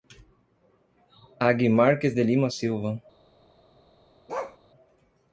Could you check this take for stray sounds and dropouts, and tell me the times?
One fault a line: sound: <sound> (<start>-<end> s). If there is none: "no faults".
sound: bark (4.3-4.6 s)